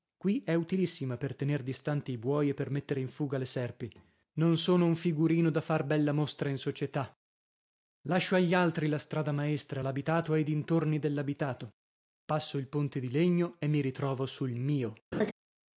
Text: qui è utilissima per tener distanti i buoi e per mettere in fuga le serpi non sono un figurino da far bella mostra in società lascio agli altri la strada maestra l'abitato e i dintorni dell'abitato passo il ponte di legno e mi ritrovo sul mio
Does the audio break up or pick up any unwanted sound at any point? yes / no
yes